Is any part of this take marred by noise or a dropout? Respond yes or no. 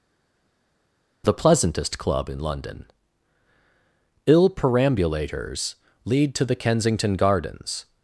no